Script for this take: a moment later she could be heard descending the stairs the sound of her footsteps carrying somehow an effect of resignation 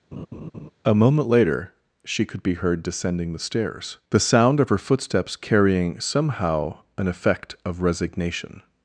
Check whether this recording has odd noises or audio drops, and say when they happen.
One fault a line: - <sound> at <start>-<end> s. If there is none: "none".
- laugh at 0.1-0.7 s